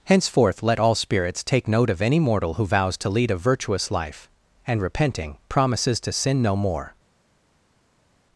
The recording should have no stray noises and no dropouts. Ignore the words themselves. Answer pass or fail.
pass